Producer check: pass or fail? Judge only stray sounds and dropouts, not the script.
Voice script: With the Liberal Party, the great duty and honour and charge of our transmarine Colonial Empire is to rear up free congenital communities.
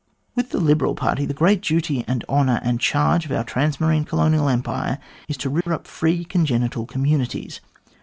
fail